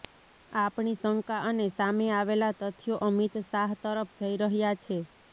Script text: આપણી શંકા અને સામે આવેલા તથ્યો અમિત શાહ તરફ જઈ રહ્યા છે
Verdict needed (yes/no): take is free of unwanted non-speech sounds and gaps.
yes